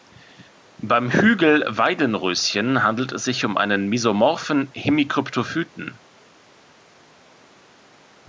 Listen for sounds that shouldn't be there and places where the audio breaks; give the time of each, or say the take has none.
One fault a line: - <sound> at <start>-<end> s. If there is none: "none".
none